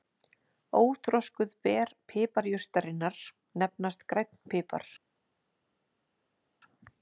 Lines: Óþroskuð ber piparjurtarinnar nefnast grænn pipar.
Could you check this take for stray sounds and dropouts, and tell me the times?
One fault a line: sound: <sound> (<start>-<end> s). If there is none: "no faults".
no faults